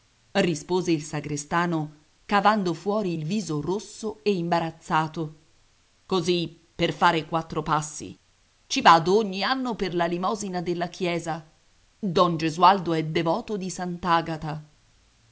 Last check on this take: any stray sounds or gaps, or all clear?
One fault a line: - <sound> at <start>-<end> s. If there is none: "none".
none